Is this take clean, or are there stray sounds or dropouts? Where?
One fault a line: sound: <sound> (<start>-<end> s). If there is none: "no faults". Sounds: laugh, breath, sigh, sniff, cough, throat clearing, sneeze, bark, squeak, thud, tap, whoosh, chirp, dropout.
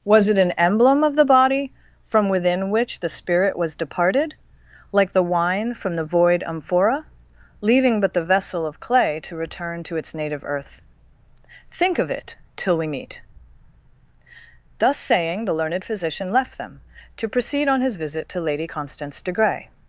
no faults